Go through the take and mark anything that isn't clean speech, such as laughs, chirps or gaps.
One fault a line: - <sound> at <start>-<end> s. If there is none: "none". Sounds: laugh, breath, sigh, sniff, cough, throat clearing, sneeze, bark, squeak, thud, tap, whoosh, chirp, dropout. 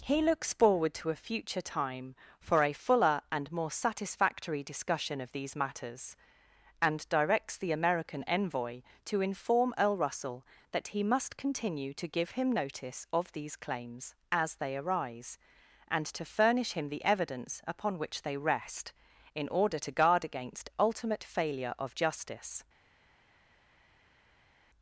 none